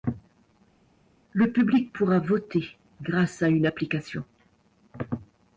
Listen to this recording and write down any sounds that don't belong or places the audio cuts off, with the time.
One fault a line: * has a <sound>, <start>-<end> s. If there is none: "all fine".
all fine